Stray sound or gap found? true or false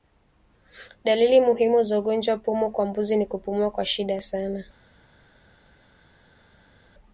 false